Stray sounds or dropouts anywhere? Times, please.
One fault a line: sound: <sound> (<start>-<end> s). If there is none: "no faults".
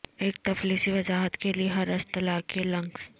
no faults